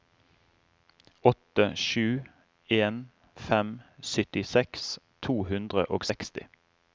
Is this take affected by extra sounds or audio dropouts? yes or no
no